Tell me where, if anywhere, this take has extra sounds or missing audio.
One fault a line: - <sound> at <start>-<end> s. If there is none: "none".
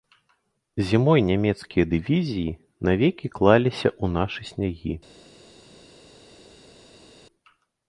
none